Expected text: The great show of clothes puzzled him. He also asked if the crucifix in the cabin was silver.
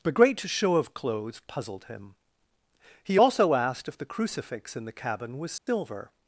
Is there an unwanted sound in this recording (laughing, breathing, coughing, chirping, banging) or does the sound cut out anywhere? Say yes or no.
yes